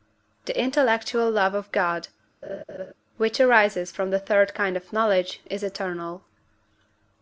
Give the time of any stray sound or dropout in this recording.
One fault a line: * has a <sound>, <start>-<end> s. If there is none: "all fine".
* has a laugh, 2.4-2.9 s